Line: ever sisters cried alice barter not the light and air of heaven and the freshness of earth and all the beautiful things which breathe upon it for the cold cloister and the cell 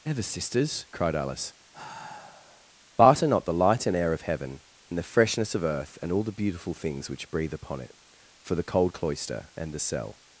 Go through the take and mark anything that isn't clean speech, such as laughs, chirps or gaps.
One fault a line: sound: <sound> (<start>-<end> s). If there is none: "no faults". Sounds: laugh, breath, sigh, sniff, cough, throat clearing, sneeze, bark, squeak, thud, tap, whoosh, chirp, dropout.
sound: sigh (1.7-2.7 s)